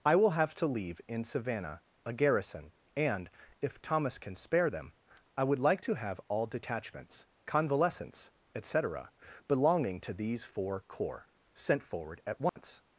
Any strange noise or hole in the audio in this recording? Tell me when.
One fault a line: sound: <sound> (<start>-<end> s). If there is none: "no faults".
sound: dropout (12.5-12.6 s)